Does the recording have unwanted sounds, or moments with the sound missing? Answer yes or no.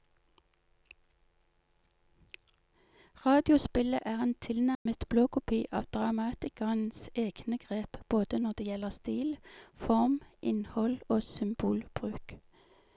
yes